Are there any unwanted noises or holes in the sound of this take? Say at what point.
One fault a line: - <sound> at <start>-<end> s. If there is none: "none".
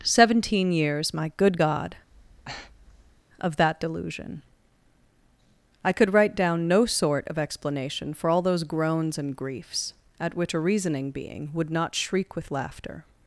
- breath at 2.1-3.2 s